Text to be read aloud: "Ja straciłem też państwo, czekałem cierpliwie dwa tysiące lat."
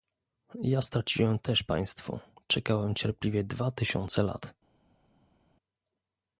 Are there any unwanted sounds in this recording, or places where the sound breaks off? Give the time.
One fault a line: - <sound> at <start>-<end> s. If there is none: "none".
none